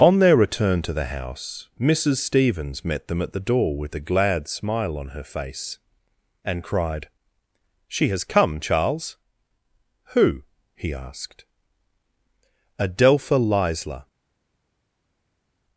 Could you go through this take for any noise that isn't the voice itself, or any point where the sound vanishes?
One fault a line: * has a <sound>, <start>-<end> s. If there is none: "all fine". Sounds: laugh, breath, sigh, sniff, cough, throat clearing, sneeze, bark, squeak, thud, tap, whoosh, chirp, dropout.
all fine